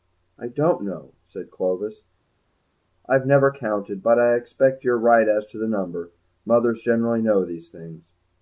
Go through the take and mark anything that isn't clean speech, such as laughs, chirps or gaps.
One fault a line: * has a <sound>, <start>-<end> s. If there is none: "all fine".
all fine